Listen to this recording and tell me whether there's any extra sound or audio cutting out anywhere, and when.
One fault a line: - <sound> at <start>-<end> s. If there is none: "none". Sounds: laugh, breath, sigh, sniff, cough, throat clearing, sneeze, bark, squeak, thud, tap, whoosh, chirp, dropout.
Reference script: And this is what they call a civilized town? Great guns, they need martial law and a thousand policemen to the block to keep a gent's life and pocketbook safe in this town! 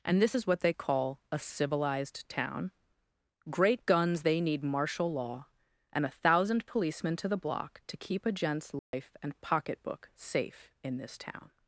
- dropout at 8.8-8.9 s